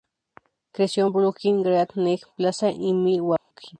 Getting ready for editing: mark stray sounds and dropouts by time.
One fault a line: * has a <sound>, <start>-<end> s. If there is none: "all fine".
* has a dropout, 3.4-3.5 s